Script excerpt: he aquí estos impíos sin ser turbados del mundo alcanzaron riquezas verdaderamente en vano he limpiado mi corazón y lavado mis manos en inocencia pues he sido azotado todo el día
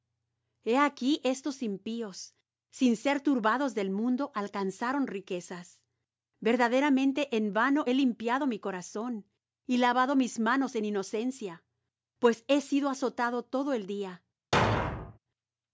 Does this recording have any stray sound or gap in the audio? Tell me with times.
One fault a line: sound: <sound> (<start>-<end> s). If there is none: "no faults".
sound: thud (14.5-15.2 s)